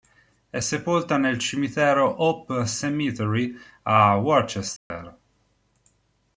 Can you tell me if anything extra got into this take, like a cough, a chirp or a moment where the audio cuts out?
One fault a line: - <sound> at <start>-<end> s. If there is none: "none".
- dropout at 4.8-4.9 s